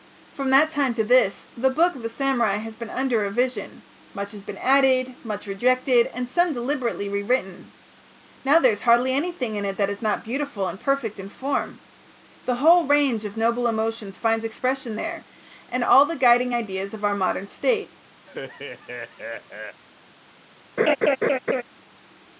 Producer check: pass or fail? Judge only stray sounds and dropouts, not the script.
fail